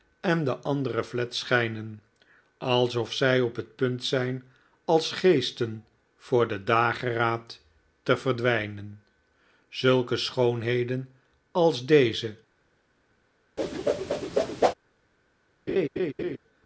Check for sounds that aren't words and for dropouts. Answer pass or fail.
fail